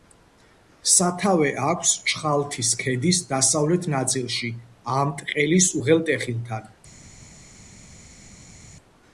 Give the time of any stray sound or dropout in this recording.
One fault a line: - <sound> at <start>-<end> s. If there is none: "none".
none